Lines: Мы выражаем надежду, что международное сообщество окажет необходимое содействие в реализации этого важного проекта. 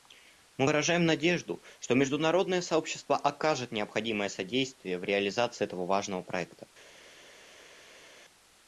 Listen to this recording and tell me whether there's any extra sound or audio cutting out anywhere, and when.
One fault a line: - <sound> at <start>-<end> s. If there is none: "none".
none